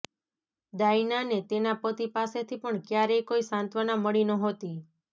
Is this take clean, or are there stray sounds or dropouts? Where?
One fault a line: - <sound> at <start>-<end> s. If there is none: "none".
none